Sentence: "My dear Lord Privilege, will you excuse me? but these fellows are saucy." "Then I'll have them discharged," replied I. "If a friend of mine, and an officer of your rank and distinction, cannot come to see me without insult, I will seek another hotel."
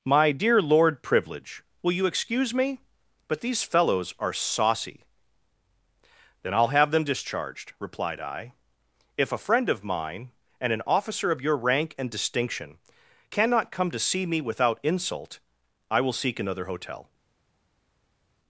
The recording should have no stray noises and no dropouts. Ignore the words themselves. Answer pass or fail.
pass